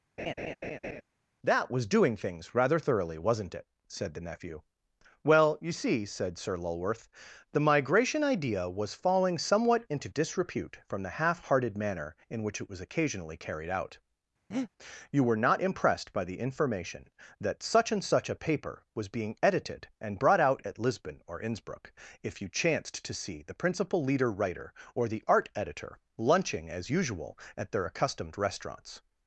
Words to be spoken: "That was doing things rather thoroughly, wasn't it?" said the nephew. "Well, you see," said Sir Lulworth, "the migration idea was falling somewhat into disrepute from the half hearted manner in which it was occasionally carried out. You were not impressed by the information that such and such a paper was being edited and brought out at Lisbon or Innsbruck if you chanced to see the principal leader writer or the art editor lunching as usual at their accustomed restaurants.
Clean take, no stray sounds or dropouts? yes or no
no